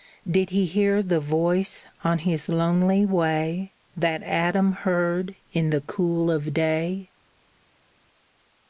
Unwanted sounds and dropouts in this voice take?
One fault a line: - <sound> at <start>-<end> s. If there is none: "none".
none